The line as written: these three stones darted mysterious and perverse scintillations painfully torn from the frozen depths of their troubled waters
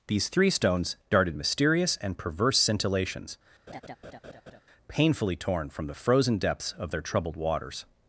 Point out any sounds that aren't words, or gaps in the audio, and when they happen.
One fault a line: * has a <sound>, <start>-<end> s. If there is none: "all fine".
* has a laugh, 3.7-4.6 s